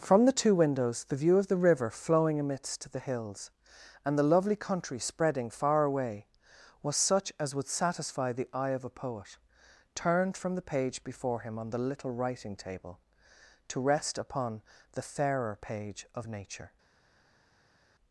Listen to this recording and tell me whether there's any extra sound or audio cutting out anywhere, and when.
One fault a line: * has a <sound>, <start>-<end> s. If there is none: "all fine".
all fine